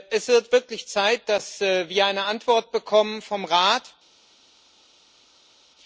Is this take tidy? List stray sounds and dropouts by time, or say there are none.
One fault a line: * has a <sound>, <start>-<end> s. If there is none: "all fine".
all fine